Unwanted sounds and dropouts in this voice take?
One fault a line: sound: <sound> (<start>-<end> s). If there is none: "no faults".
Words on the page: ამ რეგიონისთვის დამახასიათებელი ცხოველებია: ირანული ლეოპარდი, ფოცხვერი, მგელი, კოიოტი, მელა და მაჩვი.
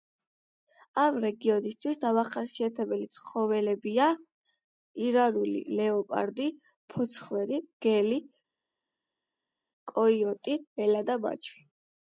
no faults